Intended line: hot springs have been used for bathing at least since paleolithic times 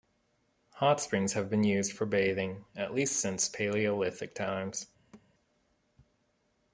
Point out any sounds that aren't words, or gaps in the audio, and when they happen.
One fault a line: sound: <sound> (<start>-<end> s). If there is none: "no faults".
sound: thud (5.1-5.3 s)